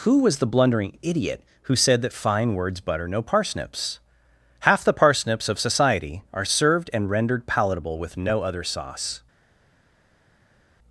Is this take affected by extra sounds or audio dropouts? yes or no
no